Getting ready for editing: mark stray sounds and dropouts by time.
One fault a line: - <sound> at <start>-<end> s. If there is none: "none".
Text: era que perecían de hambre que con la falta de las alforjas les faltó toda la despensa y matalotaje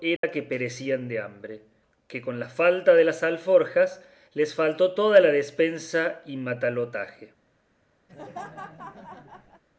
- dropout at 0.2-0.2 s
- laugh at 8.1-9.6 s